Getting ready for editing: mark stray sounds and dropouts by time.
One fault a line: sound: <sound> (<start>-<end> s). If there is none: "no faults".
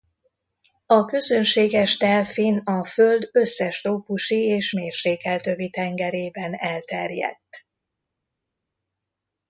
no faults